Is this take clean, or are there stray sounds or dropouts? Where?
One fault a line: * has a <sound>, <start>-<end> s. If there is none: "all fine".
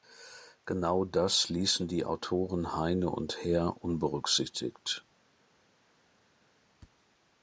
all fine